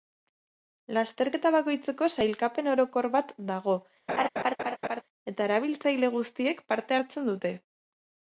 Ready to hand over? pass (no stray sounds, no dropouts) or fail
fail